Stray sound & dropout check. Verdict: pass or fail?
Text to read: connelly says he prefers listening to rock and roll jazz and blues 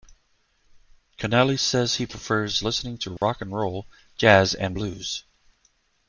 fail